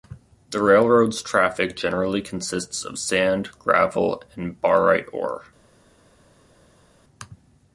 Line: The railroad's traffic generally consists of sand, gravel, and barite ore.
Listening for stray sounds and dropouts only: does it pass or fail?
pass